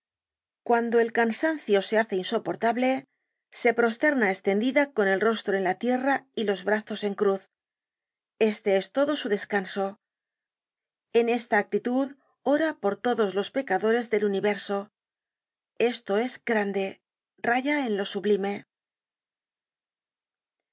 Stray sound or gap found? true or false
false